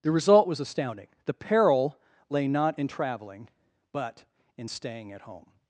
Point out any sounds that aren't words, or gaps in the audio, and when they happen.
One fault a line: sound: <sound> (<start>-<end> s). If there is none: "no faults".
no faults